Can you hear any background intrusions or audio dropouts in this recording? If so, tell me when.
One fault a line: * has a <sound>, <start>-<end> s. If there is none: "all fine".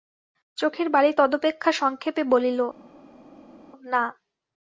all fine